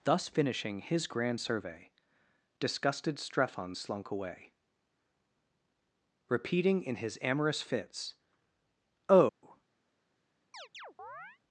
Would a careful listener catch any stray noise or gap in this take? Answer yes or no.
yes